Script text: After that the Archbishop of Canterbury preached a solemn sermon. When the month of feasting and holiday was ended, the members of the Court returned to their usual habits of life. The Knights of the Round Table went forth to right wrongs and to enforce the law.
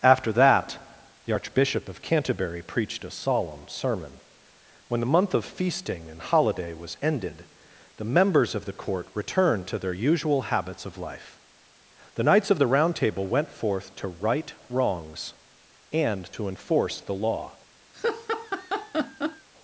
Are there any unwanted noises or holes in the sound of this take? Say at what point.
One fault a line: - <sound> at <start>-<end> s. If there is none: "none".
- laugh at 17.9-19.5 s